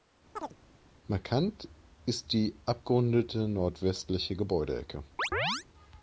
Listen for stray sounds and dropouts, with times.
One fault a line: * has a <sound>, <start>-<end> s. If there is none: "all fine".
* has a chirp, 0.4-0.6 s
* has a chirp, 5.2-5.6 s